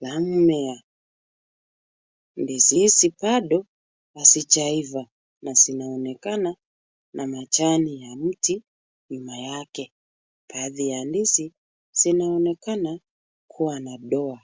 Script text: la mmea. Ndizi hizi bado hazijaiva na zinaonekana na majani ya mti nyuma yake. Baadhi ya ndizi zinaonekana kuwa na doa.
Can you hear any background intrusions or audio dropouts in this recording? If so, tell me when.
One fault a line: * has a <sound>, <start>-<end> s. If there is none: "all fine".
all fine